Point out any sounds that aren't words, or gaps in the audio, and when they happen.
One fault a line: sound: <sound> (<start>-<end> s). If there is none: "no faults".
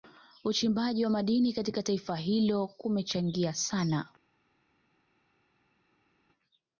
no faults